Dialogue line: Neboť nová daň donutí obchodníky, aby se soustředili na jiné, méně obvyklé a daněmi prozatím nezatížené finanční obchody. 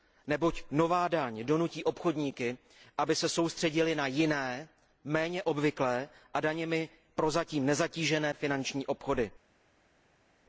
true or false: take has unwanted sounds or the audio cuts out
false